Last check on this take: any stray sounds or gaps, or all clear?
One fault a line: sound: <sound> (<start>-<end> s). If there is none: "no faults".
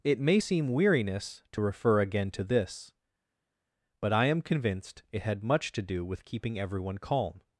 no faults